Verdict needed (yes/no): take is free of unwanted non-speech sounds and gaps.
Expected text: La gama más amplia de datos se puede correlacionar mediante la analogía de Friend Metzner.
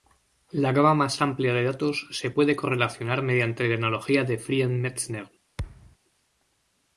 no